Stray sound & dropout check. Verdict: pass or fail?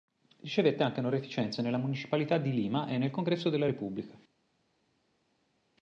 pass